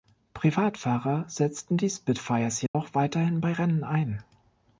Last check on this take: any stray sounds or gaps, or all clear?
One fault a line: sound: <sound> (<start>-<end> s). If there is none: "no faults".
sound: dropout (2.7-2.7 s)